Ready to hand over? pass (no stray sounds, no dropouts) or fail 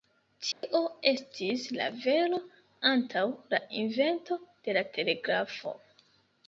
fail